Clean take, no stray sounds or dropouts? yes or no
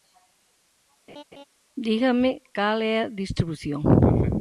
no